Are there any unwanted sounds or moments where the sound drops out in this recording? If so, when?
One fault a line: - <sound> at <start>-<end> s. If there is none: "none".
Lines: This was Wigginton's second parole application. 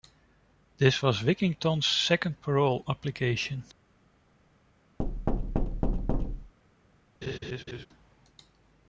- thud at 5.0-6.5 s
- laugh at 7.2-7.9 s